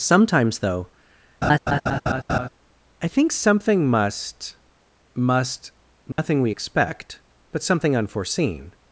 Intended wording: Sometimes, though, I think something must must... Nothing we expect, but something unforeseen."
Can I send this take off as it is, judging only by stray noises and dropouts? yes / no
no